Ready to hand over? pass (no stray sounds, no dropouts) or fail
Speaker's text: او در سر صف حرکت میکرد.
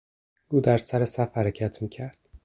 pass